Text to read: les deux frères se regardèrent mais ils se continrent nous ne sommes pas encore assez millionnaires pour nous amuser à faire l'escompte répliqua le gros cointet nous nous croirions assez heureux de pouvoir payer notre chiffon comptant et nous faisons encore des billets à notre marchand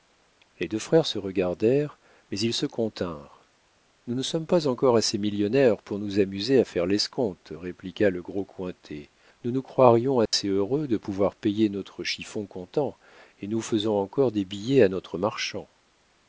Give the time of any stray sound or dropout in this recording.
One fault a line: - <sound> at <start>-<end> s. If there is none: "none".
- dropout at 10.3-10.3 s